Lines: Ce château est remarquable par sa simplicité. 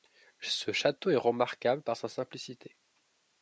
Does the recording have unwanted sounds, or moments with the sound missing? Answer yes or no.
no